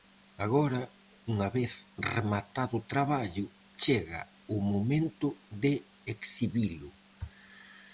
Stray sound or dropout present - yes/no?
no